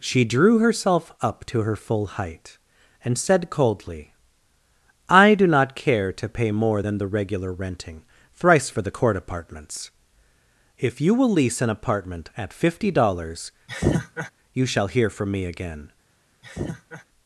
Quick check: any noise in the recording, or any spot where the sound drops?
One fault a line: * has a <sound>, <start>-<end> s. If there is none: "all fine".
* has a laugh, 13.7-14.3 s
* has a laugh, 16.4-17.0 s